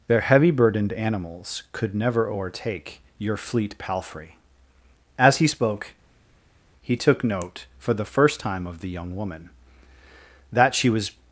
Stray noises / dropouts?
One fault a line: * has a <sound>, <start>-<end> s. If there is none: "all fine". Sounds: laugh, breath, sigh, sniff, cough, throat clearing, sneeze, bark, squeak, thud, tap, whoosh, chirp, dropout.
all fine